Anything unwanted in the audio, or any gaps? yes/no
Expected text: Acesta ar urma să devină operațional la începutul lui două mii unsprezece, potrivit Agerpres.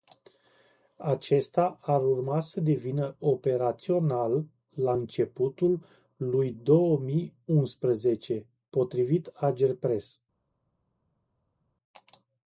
no